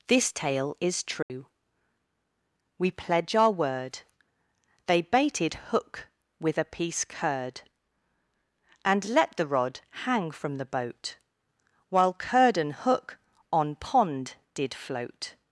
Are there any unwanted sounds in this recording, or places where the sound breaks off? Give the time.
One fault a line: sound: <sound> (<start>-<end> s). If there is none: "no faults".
sound: dropout (1.2-1.3 s)